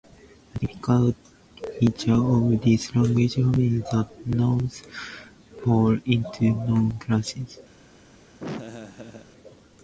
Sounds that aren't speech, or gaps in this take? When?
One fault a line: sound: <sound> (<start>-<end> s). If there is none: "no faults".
sound: laugh (8.4-9.3 s)